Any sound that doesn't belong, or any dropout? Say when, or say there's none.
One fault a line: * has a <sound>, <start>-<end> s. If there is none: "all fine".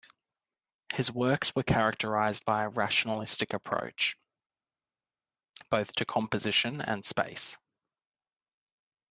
all fine